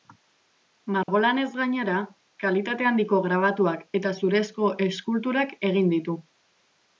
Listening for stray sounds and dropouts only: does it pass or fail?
fail